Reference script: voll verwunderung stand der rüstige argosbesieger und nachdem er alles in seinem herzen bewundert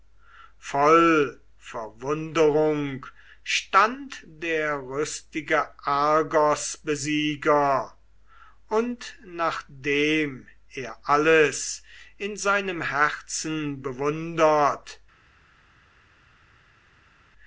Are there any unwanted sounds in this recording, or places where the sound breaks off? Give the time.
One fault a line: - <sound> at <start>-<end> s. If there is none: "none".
none